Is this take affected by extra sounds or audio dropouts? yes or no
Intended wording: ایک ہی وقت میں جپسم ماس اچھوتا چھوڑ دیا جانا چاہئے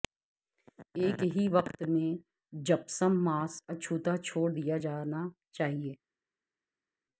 no